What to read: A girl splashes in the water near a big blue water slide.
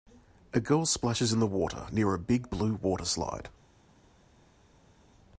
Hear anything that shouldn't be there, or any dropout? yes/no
no